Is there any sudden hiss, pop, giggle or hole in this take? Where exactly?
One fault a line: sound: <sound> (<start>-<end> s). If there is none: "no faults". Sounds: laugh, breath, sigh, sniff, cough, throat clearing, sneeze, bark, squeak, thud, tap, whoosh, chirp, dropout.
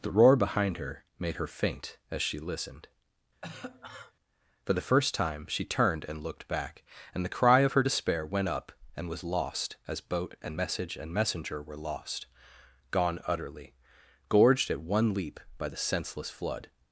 sound: cough (3.4-4.1 s)